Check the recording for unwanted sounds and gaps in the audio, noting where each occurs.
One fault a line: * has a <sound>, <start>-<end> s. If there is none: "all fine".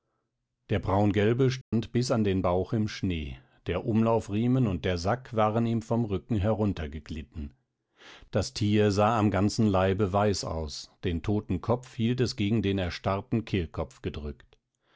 * has a dropout, 1.6-1.7 s